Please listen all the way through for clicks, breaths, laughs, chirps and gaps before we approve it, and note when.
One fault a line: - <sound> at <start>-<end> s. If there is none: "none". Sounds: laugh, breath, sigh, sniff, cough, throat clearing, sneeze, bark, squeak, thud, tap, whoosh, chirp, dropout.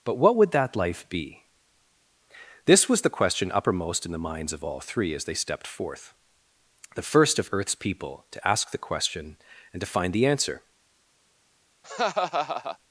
- laugh at 11.8-12.8 s